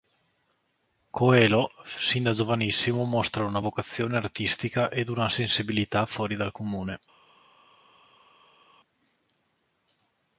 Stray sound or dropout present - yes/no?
no